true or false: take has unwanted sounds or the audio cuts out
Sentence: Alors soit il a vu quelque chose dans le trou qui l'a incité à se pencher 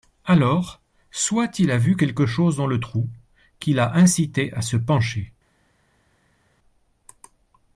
false